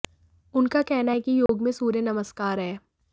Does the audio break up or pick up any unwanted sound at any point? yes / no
yes